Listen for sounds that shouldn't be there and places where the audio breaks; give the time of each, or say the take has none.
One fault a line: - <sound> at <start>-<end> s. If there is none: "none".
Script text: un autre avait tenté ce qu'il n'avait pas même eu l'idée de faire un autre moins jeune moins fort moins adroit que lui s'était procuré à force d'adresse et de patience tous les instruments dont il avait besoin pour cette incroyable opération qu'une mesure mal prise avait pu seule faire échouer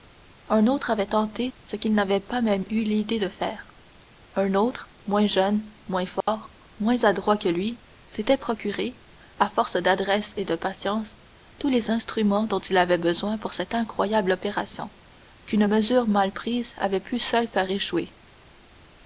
- dropout at 6.2-6.3 s